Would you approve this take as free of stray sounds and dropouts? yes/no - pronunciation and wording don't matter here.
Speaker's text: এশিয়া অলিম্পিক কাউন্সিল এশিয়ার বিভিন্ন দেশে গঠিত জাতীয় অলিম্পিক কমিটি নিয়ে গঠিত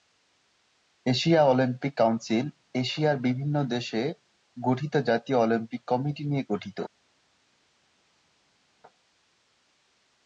yes